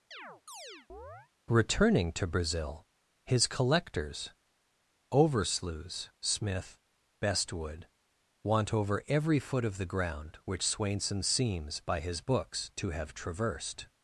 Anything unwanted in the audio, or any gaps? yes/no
yes